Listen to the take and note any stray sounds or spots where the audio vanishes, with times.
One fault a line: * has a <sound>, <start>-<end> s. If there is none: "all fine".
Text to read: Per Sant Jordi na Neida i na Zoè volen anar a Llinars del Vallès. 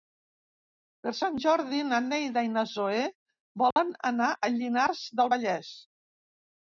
* has a dropout, 3.7-3.8 s